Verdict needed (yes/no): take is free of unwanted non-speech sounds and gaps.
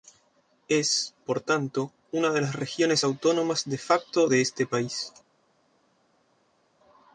yes